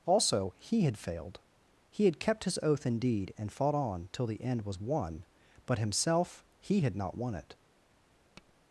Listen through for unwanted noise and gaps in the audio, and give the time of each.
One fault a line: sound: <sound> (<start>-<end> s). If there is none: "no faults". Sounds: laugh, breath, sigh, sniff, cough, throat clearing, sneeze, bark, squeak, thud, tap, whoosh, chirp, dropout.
sound: tap (8.4-8.5 s)